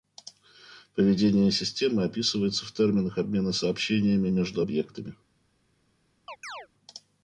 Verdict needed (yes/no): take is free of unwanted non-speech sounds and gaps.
no